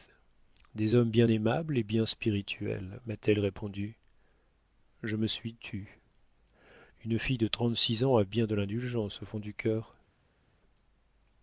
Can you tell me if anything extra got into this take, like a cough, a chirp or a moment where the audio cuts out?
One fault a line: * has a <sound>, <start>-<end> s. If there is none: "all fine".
all fine